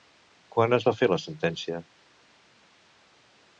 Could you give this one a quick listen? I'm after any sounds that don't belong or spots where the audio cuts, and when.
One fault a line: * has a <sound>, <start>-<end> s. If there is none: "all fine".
all fine